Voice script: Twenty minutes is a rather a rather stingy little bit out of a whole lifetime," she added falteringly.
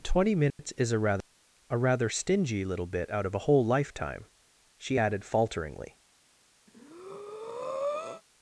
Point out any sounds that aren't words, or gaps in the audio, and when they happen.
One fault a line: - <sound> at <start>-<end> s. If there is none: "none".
- dropout at 0.5-0.6 s
- breath at 6.7-8.2 s